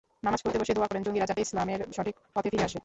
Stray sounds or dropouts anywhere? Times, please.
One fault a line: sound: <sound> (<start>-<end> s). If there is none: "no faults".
no faults